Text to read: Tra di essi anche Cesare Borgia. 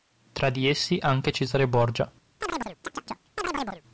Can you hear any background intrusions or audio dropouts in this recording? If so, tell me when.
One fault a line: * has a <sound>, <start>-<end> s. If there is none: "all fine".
* has a chirp, 2.4-3.8 s